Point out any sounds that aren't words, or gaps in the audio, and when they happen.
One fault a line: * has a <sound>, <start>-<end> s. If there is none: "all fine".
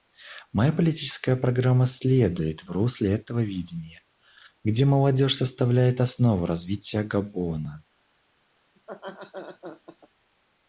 * has a laugh, 8.8-10.1 s